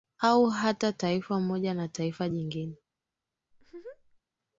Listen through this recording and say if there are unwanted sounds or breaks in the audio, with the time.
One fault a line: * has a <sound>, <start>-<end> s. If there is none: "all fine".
* has a laugh, 3.5-4.2 s